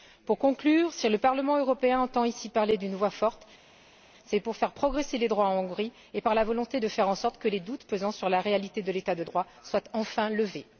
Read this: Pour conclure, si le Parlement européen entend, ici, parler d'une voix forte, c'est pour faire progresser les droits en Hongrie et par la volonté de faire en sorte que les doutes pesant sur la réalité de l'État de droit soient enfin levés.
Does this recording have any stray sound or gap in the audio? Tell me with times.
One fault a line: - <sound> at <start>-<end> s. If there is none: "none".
none